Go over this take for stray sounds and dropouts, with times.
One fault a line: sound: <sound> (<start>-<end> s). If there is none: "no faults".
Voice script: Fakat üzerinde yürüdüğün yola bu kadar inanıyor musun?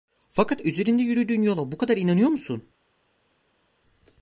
no faults